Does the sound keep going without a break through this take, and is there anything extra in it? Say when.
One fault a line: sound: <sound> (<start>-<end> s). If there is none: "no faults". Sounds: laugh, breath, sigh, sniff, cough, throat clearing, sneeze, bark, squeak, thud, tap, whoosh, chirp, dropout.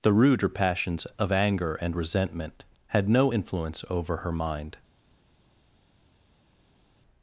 no faults